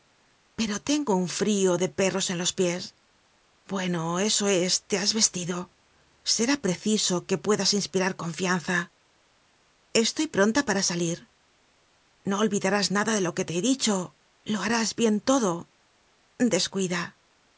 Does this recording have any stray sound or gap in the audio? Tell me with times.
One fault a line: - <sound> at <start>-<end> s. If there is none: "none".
none